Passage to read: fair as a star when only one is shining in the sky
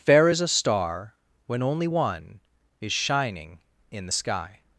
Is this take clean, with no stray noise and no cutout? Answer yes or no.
yes